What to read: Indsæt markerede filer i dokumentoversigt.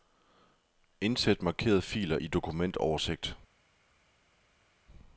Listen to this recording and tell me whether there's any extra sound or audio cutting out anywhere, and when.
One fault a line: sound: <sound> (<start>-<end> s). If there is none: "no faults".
no faults